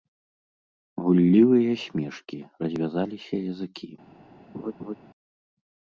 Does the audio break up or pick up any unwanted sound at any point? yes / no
yes